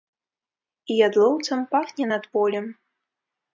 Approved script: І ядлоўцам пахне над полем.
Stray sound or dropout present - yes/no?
no